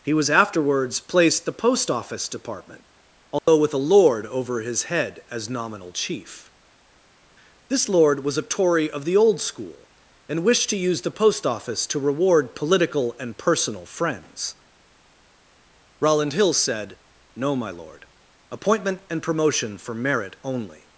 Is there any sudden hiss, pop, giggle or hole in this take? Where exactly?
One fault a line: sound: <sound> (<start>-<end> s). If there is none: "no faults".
sound: dropout (3.4-3.5 s)